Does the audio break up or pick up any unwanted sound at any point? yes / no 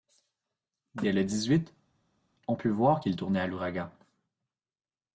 no